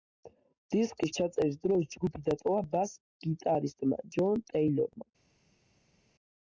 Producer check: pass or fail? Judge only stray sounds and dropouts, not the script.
pass